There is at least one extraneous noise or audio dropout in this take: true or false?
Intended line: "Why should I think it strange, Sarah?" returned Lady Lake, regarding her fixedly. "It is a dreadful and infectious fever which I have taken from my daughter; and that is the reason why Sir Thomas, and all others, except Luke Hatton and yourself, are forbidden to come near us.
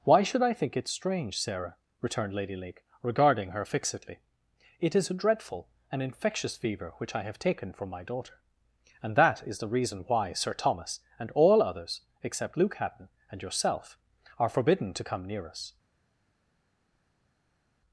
false